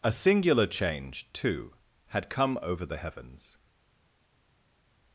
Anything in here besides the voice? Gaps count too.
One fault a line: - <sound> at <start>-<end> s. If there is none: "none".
none